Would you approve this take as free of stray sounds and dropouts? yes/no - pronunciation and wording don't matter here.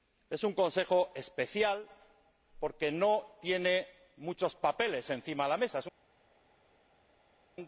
yes